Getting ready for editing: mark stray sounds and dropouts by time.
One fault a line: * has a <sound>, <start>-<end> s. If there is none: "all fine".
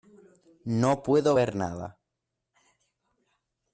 all fine